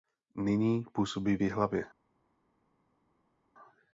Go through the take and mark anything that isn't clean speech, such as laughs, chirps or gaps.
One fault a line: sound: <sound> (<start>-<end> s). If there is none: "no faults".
no faults